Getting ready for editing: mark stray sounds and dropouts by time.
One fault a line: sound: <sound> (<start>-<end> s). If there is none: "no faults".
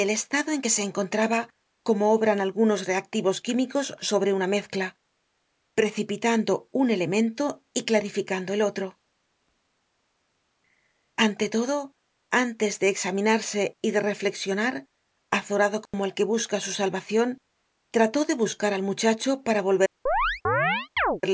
sound: dropout (15.9-15.9 s)
sound: chirp (20.1-21.2 s)